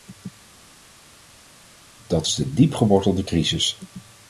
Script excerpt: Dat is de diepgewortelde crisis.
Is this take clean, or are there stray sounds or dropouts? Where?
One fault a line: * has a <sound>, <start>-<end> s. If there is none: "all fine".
all fine